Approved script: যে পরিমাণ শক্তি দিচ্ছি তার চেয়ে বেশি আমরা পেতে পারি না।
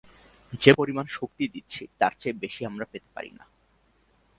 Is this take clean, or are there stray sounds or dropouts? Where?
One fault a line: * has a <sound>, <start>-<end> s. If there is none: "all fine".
all fine